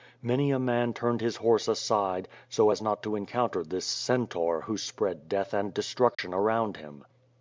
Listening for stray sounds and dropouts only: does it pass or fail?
fail